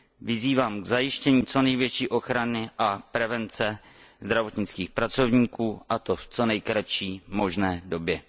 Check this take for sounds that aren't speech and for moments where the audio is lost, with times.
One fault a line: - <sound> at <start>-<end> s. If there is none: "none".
none